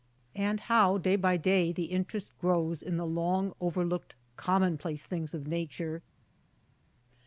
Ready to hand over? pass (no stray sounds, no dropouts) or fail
pass